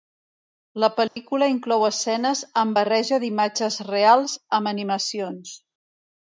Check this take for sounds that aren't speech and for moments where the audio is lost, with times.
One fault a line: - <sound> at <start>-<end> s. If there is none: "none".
- dropout at 1.1-1.2 s